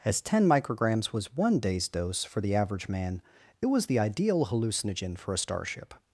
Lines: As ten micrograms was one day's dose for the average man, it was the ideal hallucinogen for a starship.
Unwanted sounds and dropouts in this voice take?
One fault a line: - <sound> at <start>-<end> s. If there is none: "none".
none